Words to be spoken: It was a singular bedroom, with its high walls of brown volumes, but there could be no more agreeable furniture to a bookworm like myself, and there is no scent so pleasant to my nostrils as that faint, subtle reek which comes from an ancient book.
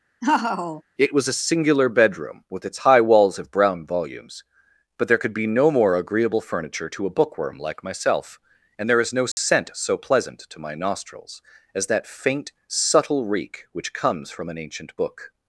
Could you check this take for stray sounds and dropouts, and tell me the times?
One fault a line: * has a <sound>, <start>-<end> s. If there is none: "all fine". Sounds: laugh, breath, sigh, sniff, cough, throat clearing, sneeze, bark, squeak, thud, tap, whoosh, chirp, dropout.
* has a laugh, 0.2-0.8 s
* has a dropout, 9.3-9.4 s